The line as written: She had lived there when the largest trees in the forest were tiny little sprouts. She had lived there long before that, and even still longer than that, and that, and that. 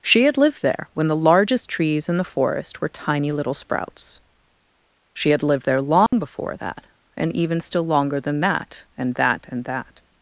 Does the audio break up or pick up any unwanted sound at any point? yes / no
yes